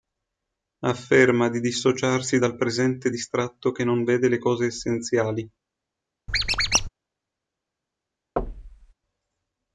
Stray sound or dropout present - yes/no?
yes